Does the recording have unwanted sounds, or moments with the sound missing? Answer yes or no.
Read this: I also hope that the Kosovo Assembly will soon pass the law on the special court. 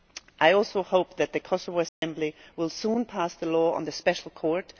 yes